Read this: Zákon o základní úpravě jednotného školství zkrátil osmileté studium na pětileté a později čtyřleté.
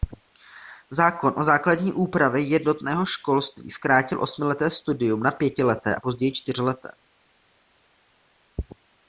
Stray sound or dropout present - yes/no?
no